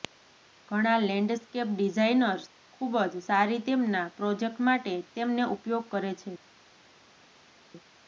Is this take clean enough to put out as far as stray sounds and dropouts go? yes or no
yes